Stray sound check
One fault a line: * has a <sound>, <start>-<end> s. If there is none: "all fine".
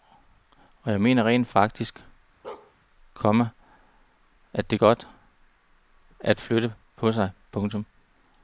* has a bark, 2.4-2.7 s